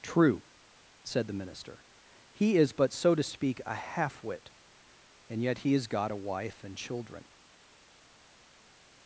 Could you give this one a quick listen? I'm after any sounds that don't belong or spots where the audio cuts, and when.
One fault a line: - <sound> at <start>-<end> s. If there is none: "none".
none